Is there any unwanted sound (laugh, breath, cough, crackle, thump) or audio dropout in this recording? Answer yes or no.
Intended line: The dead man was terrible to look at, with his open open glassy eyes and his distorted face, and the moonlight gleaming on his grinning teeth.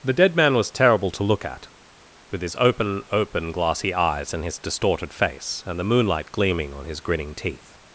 no